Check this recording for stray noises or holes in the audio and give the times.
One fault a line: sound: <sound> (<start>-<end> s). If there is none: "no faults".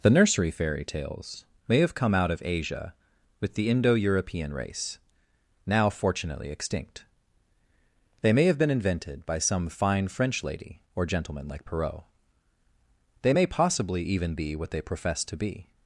no faults